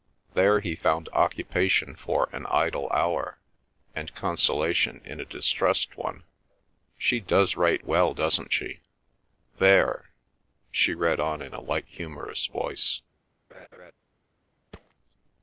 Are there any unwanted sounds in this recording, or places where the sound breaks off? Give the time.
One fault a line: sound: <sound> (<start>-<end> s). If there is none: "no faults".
sound: laugh (13.5-13.9 s)
sound: thud (14.7-14.9 s)